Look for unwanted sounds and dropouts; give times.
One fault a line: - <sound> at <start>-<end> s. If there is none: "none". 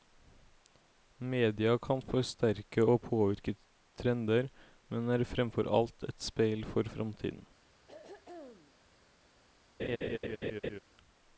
- throat clearing at 7.9-8.7 s
- laugh at 9.8-10.8 s